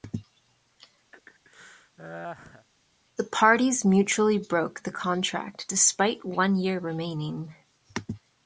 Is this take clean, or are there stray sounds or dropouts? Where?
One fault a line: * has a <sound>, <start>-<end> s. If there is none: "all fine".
* has a laugh, 1.1-2.7 s